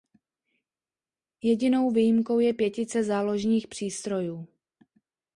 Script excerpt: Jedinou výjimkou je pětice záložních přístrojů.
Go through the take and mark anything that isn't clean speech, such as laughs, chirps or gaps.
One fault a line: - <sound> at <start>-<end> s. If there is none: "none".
none